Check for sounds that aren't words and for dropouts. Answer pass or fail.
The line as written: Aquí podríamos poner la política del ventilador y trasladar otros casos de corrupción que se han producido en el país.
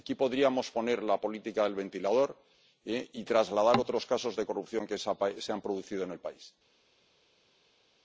pass